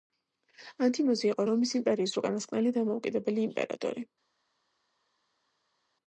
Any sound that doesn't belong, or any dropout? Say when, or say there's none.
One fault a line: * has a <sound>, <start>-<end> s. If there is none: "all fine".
all fine